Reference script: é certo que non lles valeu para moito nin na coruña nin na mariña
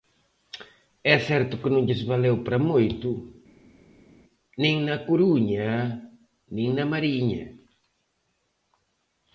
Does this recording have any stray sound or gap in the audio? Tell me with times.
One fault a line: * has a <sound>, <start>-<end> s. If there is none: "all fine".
all fine